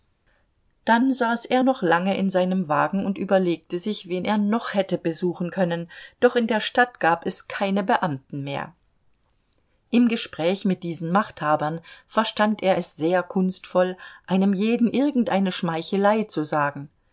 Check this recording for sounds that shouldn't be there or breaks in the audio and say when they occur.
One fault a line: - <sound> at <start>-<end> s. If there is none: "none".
none